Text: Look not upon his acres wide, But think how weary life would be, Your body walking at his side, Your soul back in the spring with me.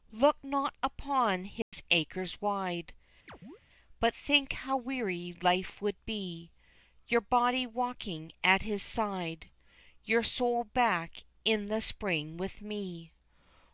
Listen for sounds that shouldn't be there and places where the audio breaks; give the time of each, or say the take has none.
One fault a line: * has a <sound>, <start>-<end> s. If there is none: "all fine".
* has a dropout, 1.6-1.7 s
* has a chirp, 3.3-3.6 s